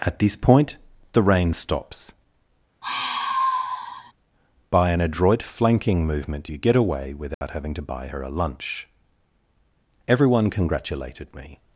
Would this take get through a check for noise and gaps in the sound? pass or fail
fail